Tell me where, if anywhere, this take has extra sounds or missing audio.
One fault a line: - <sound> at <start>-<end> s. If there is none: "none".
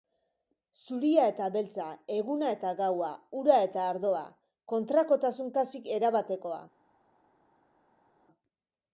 none